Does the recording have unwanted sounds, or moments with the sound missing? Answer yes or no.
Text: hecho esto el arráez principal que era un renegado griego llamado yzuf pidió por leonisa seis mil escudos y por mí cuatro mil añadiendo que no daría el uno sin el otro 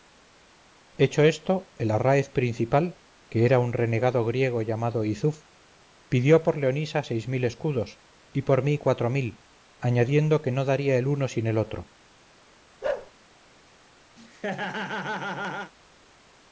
yes